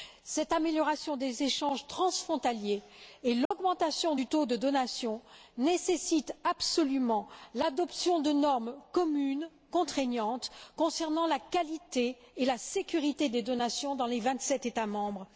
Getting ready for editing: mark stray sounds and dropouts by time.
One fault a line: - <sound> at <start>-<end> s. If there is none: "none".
- dropout at 3.5-3.5 s